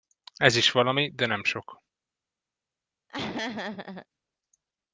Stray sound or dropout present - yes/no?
yes